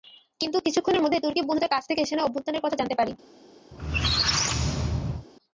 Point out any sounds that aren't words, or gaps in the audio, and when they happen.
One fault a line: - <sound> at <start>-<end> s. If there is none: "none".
- squeak at 3.7-5.3 s